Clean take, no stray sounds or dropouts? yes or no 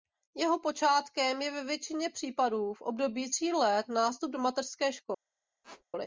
no